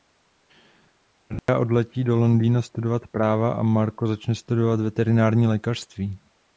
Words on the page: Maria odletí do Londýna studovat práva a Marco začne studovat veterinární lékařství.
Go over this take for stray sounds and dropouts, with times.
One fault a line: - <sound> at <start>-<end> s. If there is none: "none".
- dropout at 1.4-1.5 s